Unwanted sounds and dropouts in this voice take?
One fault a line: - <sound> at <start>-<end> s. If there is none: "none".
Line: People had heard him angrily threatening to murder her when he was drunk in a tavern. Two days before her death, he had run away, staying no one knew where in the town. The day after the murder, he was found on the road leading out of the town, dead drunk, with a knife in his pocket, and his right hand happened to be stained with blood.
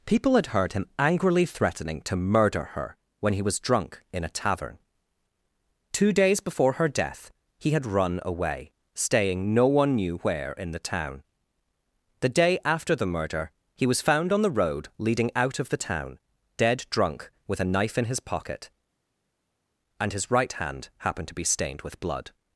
none